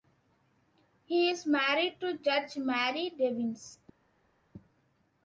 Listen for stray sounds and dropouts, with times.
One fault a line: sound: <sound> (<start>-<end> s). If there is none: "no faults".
no faults